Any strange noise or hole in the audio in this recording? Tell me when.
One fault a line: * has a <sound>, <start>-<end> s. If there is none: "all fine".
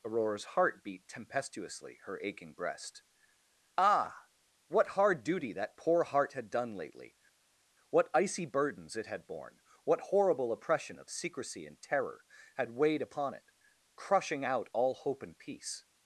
all fine